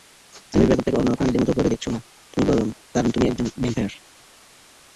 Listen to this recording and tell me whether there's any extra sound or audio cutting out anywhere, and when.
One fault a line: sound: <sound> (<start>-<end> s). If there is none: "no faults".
no faults